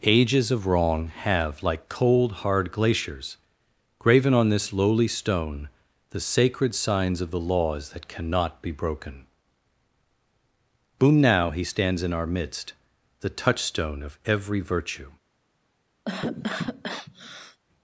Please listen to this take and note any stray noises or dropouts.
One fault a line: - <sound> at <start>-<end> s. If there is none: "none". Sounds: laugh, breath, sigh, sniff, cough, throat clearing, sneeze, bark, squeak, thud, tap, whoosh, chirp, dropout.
- cough at 16.0-17.6 s